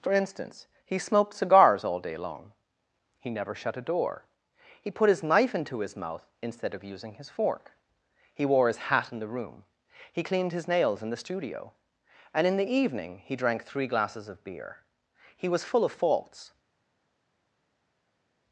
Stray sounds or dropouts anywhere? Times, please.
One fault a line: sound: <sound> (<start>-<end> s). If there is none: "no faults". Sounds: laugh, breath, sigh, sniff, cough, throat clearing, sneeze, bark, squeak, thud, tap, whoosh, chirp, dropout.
no faults